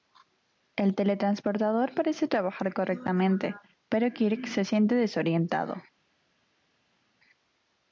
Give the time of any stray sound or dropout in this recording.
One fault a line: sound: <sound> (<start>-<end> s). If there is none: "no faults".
no faults